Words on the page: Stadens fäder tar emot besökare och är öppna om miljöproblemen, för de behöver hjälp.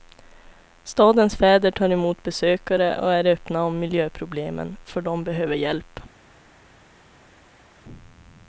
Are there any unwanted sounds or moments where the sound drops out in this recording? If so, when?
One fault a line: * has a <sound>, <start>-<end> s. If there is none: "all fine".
all fine